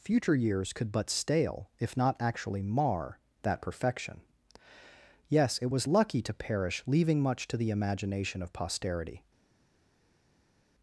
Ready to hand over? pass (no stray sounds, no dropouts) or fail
pass